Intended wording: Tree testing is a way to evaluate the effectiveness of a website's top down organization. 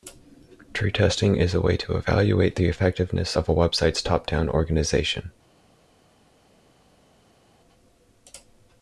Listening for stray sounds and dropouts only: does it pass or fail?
pass